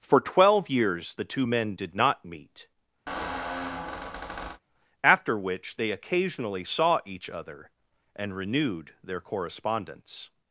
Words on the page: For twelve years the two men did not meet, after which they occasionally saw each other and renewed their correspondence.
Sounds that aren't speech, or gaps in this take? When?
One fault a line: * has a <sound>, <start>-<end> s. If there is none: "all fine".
* has a squeak, 3.1-4.6 s